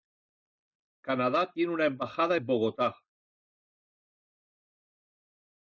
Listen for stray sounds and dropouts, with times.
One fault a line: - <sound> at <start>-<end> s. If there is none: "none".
none